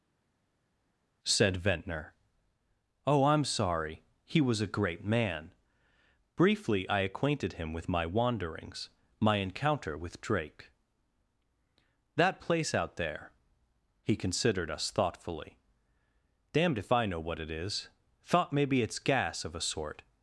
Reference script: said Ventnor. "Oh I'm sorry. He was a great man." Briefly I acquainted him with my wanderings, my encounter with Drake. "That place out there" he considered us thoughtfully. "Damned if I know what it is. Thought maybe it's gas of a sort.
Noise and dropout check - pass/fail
pass